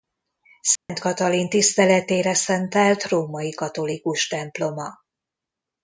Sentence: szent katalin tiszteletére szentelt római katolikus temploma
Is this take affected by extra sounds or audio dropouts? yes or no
yes